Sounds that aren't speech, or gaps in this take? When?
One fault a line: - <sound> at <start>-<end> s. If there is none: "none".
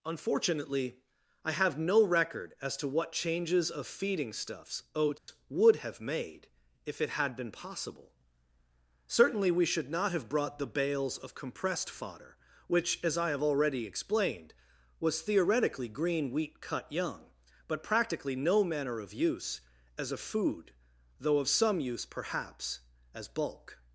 - dropout at 5.2-5.3 s